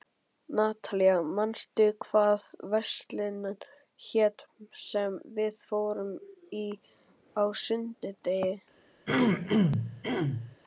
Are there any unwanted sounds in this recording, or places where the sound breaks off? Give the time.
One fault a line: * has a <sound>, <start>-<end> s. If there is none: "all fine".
* has a throat clearing, 9.1-10.6 s